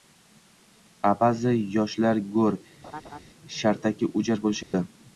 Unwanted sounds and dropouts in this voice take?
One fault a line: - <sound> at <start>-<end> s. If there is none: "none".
- laugh at 2.8-3.2 s
- dropout at 4.6-4.7 s